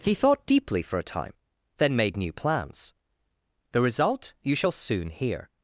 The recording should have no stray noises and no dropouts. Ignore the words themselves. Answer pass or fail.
pass